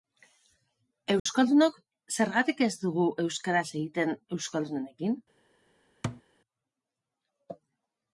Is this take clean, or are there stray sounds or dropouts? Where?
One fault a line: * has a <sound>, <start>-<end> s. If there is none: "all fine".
* has a dropout, 1.2-1.3 s
* has a thud, 6.0-6.2 s